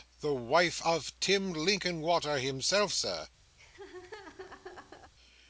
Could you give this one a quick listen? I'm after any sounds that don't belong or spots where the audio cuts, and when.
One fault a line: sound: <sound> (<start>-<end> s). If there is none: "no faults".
sound: laugh (3.6-5.1 s)